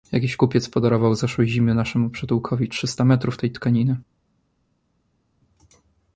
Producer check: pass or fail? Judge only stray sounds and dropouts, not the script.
pass